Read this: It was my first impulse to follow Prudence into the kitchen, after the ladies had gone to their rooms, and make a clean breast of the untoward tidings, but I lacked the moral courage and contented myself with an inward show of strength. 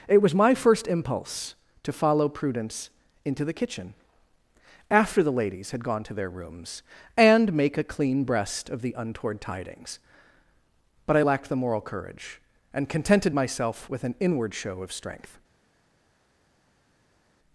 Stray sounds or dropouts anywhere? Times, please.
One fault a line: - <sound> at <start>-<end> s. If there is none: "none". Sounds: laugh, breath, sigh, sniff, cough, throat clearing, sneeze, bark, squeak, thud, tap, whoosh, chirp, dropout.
none